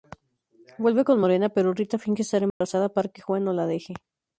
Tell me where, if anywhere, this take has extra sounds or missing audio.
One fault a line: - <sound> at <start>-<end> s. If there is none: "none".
- dropout at 2.5-2.6 s